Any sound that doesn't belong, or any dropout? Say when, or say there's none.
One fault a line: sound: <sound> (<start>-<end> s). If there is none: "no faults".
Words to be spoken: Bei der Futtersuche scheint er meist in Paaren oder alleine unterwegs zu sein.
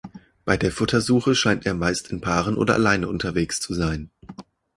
no faults